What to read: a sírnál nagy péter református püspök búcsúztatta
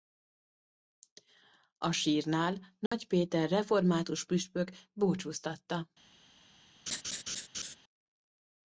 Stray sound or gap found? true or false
true